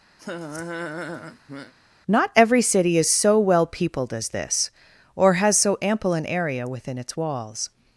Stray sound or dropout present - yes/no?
yes